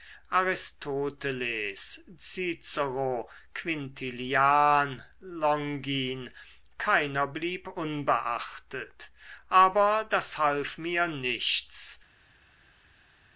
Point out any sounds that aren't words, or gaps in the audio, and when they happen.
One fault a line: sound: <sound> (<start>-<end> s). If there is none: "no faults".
no faults